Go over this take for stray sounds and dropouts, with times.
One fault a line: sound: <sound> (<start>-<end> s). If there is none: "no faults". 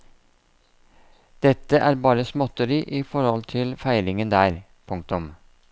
no faults